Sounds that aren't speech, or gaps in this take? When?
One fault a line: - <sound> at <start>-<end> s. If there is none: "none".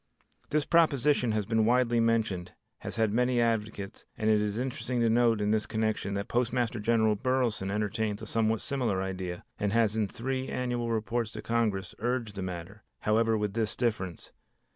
none